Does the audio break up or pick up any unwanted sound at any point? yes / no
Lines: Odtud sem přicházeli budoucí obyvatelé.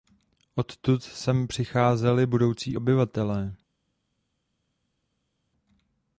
no